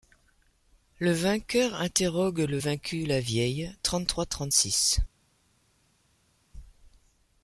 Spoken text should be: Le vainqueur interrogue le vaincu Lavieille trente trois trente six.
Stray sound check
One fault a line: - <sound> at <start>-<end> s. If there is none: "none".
none